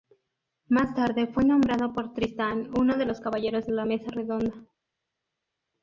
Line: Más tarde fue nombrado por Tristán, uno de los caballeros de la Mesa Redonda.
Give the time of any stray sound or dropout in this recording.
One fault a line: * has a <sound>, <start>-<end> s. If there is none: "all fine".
all fine